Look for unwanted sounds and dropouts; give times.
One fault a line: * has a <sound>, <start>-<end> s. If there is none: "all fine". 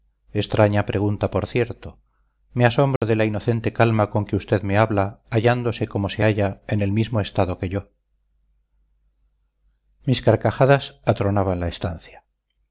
* has a dropout, 3.0-3.0 s